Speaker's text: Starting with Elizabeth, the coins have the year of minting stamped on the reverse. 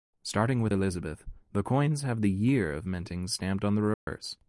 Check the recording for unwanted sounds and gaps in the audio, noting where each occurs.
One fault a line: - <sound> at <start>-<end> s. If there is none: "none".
- dropout at 3.9-4.1 s